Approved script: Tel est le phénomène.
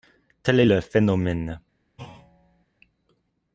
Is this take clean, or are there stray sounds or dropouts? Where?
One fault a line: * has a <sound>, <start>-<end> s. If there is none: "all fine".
* has a thud, 2.0-2.7 s